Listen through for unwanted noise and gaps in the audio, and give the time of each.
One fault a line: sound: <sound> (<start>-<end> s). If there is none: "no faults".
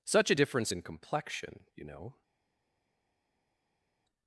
no faults